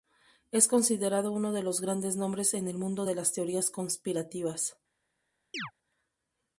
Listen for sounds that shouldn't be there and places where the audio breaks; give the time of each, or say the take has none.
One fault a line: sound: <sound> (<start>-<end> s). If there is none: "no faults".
sound: chirp (5.5-5.7 s)